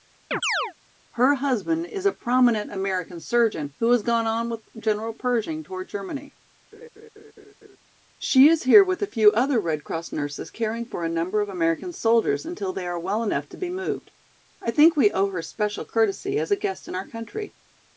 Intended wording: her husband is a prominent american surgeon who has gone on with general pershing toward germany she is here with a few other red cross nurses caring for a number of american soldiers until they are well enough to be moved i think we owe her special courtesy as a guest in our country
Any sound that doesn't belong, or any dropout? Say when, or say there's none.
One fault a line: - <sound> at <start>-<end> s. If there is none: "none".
- chirp at 0.3-0.7 s
- laugh at 6.7-7.8 s